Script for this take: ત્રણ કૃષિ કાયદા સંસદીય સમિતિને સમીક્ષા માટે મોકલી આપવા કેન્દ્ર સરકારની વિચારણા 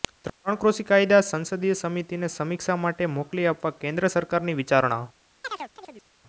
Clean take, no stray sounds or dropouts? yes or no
no